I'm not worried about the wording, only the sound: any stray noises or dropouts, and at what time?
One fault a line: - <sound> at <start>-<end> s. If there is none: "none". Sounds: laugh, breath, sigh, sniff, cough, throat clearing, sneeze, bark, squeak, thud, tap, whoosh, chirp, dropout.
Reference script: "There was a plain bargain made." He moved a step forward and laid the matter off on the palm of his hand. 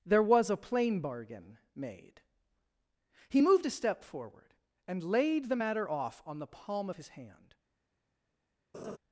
- laugh at 8.7-9.0 s